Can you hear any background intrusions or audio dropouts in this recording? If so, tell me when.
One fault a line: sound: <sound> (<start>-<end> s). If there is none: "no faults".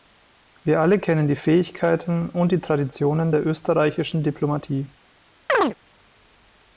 sound: chirp (5.5-5.7 s)